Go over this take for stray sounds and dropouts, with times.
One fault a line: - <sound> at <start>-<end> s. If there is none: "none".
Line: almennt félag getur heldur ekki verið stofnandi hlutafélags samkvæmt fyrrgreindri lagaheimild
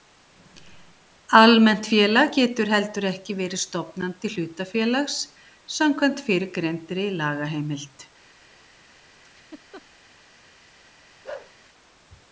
- laugh at 9.2-9.8 s
- bark at 11.2-11.5 s